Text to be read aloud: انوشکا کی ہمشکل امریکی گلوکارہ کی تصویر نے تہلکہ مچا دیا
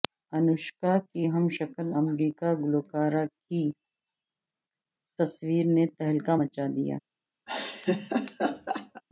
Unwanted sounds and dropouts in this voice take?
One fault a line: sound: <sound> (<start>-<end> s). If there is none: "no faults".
sound: laugh (7.5-9.0 s)